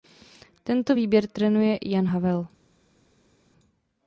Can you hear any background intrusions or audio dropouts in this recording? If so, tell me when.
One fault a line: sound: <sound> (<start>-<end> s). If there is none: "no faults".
no faults